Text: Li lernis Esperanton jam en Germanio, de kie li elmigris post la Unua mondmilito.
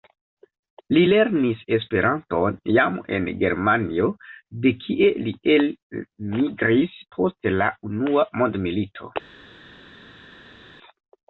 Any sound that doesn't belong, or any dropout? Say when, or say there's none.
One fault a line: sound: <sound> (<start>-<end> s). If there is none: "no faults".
no faults